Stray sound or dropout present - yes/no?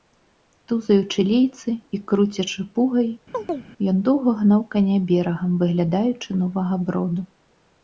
yes